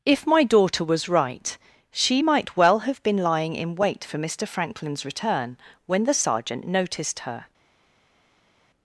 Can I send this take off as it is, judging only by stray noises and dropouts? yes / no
yes